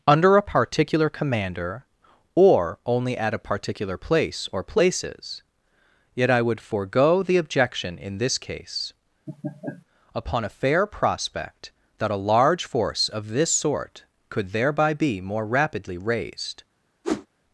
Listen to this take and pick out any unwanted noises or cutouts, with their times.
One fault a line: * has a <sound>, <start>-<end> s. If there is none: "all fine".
* has a laugh, 9.3-9.9 s
* has a whoosh, 17.0-17.3 s